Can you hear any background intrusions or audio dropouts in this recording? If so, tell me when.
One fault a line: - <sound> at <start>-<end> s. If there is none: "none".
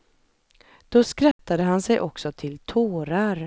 - dropout at 1.3-1.4 s